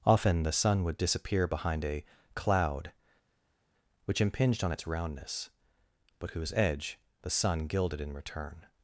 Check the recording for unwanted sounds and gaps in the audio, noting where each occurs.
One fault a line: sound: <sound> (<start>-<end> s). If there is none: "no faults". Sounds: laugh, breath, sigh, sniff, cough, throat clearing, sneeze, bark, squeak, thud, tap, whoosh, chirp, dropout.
no faults